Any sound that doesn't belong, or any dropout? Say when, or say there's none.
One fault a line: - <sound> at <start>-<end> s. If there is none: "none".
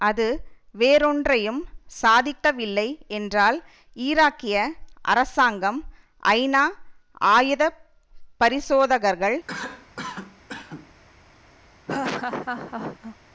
- cough at 9.5-10.9 s
- laugh at 11.9-13.2 s